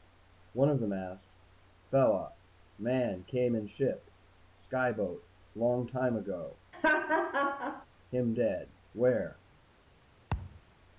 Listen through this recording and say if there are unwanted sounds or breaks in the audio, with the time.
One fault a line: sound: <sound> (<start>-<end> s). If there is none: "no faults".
sound: laugh (6.7-7.9 s)
sound: thud (10.3-10.6 s)